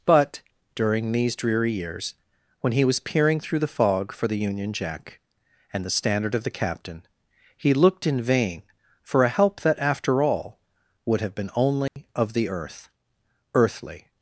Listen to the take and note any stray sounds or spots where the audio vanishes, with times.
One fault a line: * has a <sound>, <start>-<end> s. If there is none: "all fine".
* has a dropout, 11.9-12.0 s